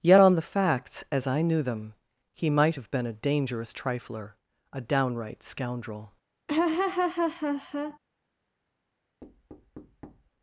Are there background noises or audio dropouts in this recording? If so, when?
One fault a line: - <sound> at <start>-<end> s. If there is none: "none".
- laugh at 6.5-8.0 s
- thud at 9.2-10.3 s